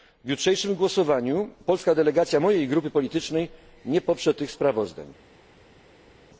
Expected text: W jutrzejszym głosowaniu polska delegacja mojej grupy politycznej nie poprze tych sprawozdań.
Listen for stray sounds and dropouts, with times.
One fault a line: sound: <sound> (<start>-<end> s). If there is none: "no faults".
no faults